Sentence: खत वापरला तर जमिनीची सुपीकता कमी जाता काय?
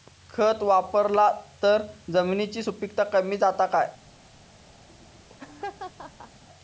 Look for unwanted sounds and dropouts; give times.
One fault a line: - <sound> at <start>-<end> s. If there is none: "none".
- laugh at 4.9-6.4 s